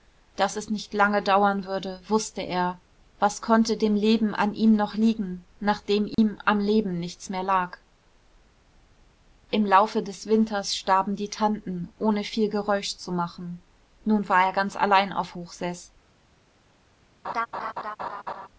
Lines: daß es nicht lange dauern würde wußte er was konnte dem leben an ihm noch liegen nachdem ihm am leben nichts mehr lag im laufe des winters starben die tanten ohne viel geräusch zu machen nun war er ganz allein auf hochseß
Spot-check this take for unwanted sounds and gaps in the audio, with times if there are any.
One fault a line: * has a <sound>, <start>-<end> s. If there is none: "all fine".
* has a dropout, 6.1-6.2 s
* has a laugh, 17.2-18.5 s